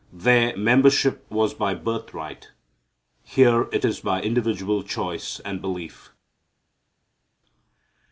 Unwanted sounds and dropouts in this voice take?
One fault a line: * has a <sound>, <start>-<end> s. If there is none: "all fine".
all fine